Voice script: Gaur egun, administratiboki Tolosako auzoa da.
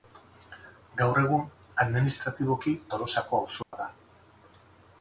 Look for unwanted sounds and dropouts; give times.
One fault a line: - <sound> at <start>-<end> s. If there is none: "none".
- dropout at 3.6-3.7 s